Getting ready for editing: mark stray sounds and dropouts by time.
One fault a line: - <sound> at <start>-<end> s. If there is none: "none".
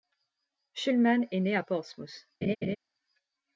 - laugh at 2.4-2.8 s